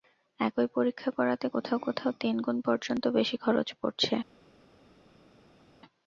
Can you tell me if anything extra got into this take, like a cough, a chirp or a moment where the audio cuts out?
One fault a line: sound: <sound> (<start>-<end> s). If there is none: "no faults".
no faults